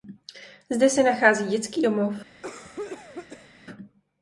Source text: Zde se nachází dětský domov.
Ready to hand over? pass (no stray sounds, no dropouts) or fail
fail